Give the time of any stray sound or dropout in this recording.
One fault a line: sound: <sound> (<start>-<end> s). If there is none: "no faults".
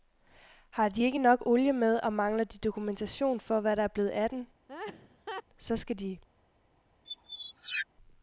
sound: laugh (4.7-5.4 s)
sound: squeak (7.0-7.9 s)